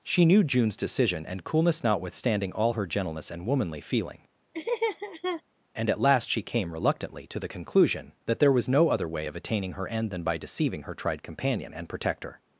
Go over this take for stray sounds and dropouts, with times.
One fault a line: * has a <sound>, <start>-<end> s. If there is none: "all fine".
* has a laugh, 4.5-5.4 s